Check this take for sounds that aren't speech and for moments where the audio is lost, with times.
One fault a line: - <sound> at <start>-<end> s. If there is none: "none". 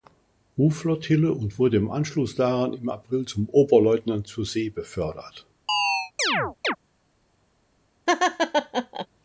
- chirp at 5.7-6.8 s
- laugh at 8.1-9.1 s